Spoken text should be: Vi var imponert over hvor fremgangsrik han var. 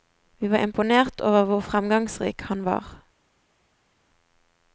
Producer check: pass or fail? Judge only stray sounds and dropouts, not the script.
pass